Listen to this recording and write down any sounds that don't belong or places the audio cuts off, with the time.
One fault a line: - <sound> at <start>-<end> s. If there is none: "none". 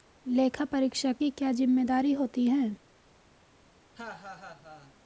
- laugh at 3.9-4.9 s